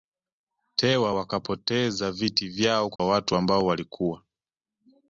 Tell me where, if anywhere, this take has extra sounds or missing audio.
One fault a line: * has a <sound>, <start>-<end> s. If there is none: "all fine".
* has a dropout, 3.0-3.0 s